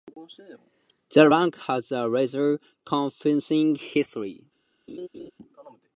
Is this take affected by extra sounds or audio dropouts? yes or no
yes